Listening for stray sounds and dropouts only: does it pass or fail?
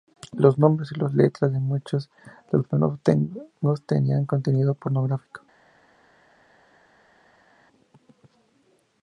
pass